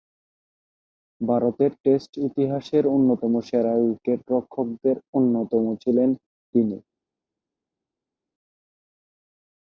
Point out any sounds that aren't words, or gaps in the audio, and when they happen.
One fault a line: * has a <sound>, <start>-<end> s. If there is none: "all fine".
all fine